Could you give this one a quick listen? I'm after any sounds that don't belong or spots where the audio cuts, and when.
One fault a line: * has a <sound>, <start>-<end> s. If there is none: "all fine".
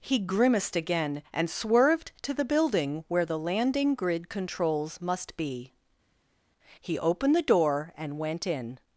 all fine